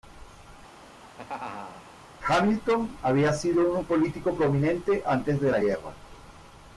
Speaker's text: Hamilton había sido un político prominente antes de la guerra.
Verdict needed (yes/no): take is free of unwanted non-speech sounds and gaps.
no